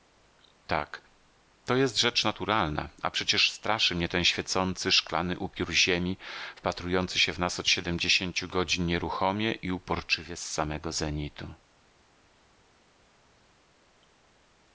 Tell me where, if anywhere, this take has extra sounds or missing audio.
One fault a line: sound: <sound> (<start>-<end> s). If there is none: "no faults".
no faults